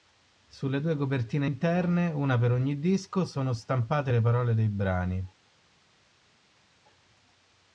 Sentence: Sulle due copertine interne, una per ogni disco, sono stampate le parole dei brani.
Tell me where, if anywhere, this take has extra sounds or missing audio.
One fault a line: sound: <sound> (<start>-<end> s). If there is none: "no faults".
no faults